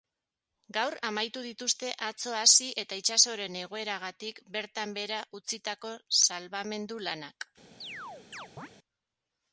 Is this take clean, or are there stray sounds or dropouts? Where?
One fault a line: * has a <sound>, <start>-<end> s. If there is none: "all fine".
* has a chirp, 7.8-8.7 s